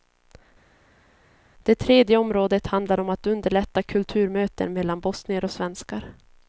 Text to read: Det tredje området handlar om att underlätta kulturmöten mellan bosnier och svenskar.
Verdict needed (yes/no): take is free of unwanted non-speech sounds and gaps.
yes